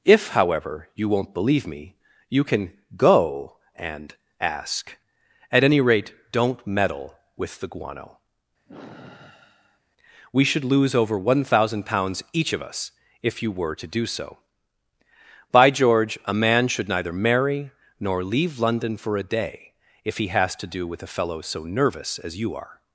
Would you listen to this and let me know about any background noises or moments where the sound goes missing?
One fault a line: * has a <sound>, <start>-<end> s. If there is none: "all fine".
* has a sigh, 8.7-9.8 s